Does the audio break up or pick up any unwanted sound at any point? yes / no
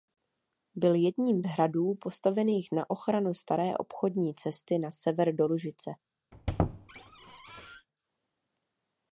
yes